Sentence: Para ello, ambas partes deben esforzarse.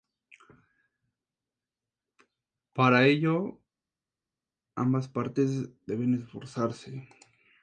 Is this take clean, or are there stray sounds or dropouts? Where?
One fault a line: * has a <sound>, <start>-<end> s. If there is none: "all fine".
all fine